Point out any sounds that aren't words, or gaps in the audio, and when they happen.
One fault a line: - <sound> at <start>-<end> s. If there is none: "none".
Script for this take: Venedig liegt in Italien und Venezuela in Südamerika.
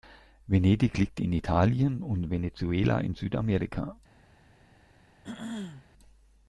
- throat clearing at 5.2-5.9 s